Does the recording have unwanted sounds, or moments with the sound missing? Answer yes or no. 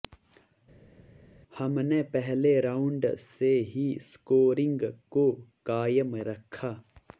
no